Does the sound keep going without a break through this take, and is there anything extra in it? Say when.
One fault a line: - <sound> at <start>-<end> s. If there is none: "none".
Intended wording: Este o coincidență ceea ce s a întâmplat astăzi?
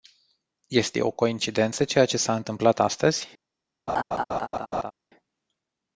- laugh at 3.9-4.9 s